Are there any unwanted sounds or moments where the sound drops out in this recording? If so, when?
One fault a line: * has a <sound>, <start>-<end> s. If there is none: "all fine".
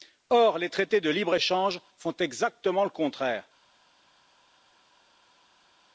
all fine